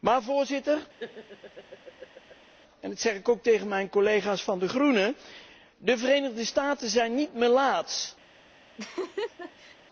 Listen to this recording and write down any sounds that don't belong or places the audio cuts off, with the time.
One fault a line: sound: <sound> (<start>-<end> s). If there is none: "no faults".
sound: laugh (1.0-2.5 s)
sound: laugh (8.8-9.8 s)